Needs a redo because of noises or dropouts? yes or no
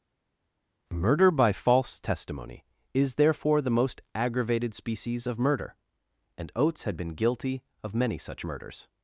no